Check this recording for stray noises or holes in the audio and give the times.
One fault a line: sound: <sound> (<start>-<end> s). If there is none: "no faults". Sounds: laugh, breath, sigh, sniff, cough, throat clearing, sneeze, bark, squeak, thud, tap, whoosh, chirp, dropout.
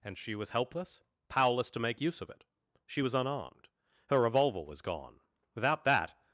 no faults